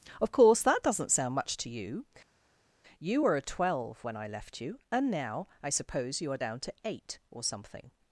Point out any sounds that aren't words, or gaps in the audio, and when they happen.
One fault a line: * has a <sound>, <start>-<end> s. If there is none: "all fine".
all fine